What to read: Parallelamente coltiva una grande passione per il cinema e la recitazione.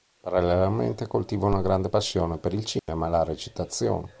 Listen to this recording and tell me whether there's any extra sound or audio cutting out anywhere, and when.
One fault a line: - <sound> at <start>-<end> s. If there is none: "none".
- dropout at 2.8-2.9 s